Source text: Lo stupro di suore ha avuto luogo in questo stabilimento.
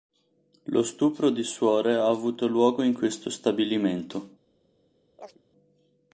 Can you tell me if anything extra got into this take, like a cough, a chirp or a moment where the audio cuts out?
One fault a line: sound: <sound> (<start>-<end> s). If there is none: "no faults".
sound: chirp (5.2-5.4 s)